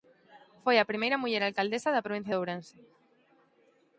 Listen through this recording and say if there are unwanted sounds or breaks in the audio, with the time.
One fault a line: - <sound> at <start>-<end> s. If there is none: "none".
none